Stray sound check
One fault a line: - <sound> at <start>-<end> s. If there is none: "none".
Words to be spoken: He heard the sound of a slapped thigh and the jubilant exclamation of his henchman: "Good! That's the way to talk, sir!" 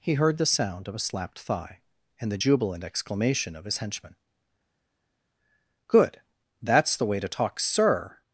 none